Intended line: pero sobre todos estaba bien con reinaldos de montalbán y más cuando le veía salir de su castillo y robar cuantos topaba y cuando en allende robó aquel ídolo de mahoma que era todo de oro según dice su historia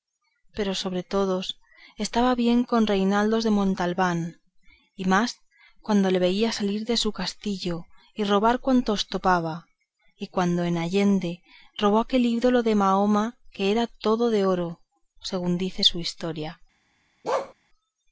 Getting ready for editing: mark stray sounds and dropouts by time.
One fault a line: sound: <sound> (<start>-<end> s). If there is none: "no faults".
sound: bark (17.2-17.5 s)